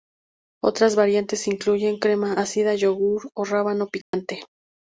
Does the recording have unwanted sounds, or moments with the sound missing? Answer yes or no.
yes